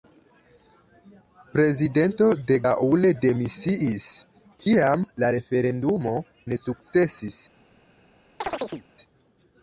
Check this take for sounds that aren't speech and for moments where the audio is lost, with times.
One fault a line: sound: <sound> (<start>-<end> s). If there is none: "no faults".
sound: chirp (8.4-8.9 s)